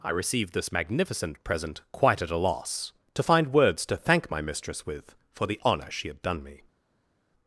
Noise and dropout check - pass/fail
pass